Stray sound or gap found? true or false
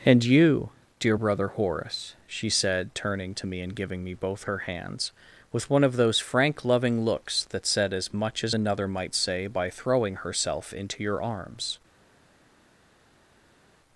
false